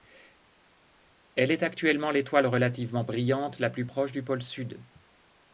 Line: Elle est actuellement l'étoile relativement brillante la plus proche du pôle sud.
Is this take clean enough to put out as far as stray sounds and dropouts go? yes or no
yes